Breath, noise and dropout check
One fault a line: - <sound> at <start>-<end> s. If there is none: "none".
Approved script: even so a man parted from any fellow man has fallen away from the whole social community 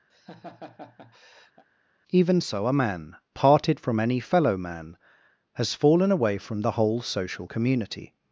- laugh at 0.1-1.6 s